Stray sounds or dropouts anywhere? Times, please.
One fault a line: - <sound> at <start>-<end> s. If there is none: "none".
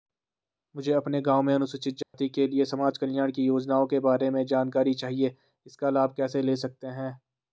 - dropout at 2.0-2.1 s